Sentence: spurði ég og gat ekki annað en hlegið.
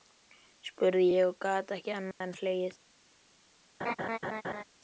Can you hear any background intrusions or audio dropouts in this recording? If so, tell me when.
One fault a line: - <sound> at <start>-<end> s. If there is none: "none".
- dropout at 2.1-2.2 s
- laugh at 3.8-4.6 s